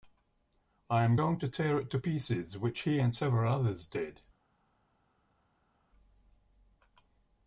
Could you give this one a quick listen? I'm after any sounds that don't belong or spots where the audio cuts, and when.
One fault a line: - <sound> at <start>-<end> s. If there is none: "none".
none